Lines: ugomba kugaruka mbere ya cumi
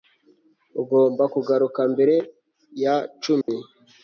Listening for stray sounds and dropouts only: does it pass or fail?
fail